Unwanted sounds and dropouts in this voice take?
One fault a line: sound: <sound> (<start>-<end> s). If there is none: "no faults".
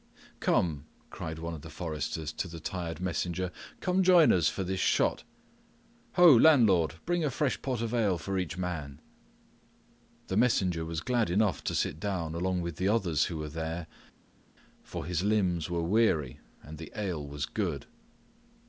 no faults